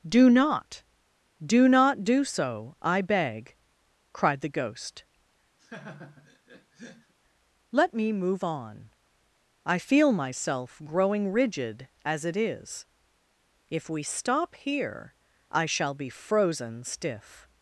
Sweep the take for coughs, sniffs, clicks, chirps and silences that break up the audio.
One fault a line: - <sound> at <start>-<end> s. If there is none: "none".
- laugh at 5.6-7.1 s